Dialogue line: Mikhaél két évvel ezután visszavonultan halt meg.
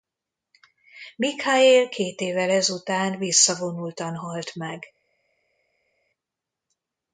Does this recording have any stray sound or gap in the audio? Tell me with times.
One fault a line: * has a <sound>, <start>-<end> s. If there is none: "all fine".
all fine